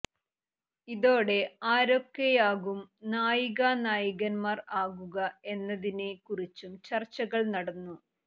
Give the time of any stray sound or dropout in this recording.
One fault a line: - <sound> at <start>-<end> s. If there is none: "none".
none